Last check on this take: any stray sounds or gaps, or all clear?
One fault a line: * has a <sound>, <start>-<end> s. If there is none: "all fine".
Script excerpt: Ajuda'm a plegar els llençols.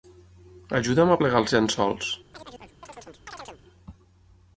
* has a chirp, 2.3-3.6 s